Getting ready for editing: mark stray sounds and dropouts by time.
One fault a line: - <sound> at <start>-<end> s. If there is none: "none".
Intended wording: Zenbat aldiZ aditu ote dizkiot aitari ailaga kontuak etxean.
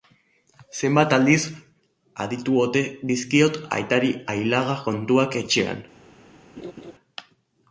- laugh at 6.6-6.9 s